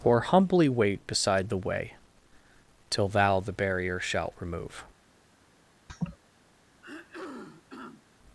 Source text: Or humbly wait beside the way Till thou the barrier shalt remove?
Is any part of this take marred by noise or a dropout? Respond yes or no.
yes